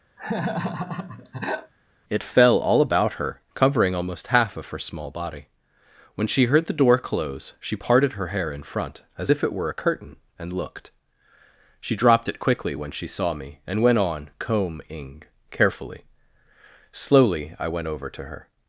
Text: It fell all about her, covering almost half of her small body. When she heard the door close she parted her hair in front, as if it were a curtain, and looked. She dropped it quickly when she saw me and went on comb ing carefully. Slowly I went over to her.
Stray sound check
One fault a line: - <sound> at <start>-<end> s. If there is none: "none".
- laugh at 0.2-1.7 s